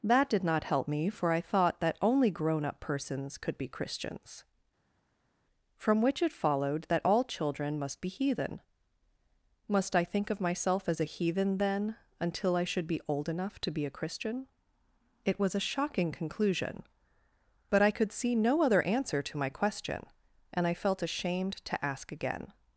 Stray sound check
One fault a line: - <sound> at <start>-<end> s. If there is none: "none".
none